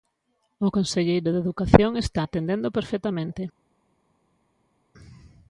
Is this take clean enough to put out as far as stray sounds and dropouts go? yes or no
yes